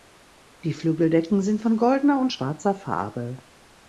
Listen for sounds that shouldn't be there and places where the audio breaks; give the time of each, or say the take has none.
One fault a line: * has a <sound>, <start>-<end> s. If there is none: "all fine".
all fine